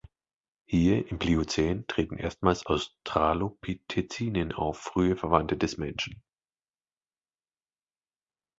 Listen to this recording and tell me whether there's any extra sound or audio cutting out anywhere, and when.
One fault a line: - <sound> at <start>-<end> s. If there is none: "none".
none